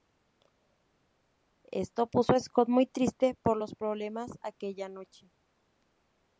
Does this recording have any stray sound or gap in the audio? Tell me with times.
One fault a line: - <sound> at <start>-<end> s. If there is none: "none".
none